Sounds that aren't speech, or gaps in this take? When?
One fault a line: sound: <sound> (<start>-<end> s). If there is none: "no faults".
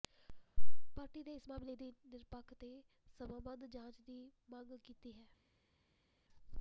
no faults